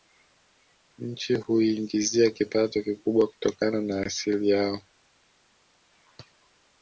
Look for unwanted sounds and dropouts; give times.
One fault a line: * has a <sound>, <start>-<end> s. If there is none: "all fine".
all fine